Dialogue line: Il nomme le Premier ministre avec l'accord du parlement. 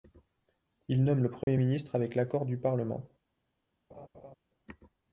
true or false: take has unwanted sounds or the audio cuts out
true